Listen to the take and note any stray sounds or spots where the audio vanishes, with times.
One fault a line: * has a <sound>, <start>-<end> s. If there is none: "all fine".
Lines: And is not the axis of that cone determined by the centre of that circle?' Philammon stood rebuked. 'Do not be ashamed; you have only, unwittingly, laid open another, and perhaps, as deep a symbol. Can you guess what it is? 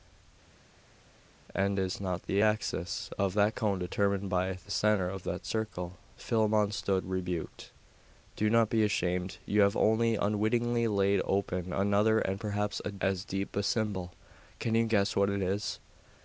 all fine